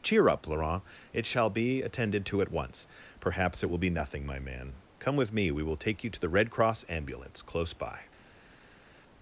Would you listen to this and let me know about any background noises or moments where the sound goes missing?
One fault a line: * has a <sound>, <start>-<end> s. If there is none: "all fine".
all fine